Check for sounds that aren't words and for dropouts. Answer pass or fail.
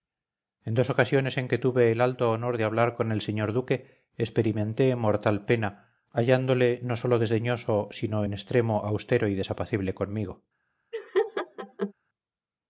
fail